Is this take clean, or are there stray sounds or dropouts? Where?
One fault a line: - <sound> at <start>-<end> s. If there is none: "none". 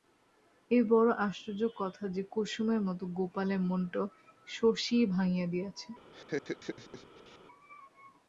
- laugh at 6.1-7.4 s